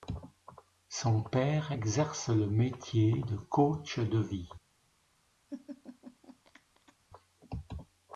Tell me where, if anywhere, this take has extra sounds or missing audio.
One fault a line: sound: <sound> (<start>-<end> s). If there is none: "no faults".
sound: laugh (5.5-7.0 s)